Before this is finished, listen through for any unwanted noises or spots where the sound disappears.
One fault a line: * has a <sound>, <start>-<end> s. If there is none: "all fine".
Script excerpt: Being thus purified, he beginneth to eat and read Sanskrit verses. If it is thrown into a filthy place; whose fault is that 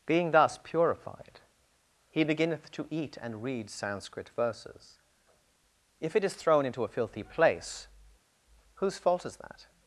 all fine